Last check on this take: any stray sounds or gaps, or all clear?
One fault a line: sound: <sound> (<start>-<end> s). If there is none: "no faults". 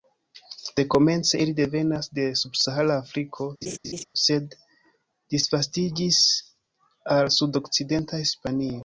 sound: laugh (3.6-4.1 s)